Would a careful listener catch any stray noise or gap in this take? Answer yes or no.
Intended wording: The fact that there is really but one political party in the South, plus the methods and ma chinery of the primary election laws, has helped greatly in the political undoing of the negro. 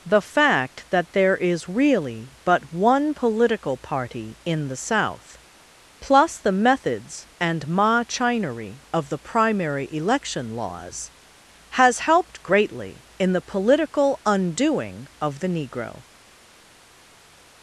no